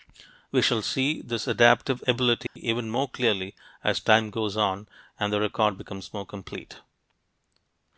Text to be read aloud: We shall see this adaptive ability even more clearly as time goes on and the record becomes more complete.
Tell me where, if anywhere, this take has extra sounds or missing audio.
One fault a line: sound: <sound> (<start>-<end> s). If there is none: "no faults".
sound: dropout (2.5-2.6 s)